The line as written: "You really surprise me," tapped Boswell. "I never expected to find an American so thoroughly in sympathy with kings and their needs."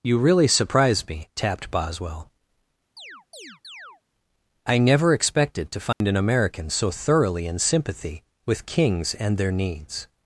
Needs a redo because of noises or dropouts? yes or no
yes